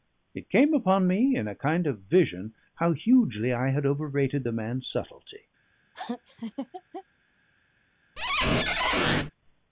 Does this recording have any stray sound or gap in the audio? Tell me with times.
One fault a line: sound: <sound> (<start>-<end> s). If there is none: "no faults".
sound: laugh (5.9-7.0 s)
sound: squeak (8.2-9.3 s)